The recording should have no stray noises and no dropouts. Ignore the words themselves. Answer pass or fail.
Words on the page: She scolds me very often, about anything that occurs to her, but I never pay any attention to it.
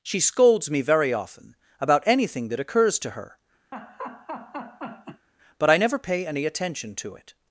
fail